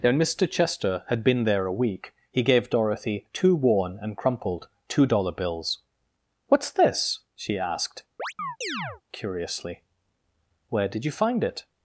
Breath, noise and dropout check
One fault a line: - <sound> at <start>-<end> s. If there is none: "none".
- chirp at 8.2-9.0 s